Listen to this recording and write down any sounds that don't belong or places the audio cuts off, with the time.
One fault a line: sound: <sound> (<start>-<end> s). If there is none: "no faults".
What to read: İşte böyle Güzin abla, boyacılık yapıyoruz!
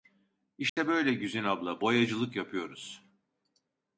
sound: dropout (0.7-0.8 s)